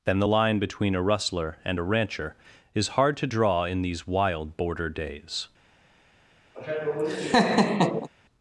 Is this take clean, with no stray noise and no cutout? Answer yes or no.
no